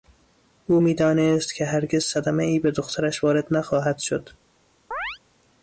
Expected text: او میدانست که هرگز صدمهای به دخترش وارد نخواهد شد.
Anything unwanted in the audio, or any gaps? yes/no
yes